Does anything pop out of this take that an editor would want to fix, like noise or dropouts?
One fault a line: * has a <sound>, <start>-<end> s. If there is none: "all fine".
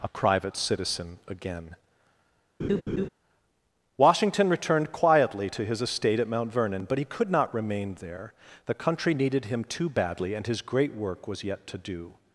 * has a laugh, 2.6-3.1 s